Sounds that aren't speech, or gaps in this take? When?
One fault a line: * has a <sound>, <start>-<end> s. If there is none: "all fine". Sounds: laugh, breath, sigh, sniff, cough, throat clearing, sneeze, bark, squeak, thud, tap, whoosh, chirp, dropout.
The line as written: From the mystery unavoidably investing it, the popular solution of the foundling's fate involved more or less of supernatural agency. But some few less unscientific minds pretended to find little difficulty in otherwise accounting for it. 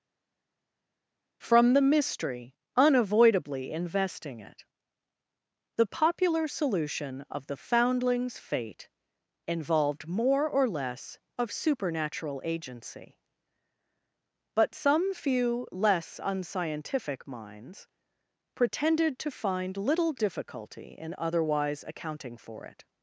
all fine